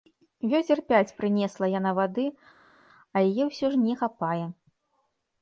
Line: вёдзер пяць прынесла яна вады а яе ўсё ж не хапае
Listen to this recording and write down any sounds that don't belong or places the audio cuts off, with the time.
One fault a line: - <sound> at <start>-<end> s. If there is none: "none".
none